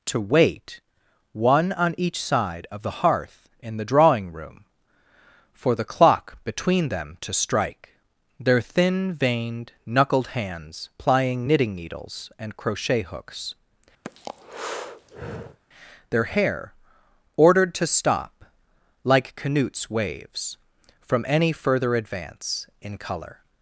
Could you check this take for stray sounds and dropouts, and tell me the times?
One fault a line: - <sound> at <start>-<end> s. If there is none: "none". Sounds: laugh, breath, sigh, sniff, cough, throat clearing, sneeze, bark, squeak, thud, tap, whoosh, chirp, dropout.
- breath at 14.0-15.6 s